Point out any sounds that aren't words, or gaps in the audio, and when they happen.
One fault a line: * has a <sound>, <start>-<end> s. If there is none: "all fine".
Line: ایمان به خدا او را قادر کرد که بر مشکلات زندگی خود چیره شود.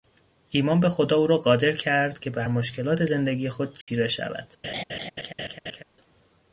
* has a dropout, 3.8-3.9 s
* has a laugh, 4.6-5.8 s